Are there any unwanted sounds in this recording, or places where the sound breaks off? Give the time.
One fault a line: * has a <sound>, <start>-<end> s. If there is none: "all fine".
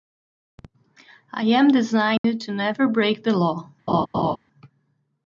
* has a dropout, 2.2-2.2 s
* has a laugh, 3.9-4.4 s